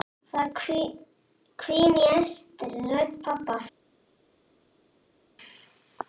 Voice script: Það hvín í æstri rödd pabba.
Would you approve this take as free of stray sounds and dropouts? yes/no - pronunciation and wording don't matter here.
yes